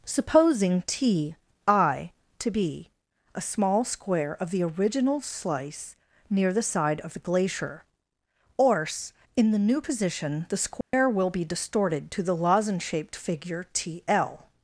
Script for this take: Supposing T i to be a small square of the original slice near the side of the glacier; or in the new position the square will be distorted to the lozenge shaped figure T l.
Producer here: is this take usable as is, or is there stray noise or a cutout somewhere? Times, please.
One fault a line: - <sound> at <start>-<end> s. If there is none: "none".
- dropout at 10.8-10.9 s